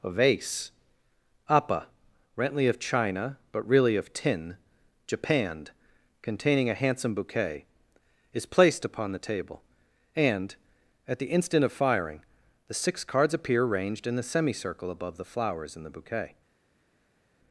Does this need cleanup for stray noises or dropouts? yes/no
no